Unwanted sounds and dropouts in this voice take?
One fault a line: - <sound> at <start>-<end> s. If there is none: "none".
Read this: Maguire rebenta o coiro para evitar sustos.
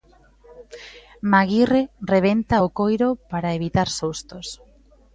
none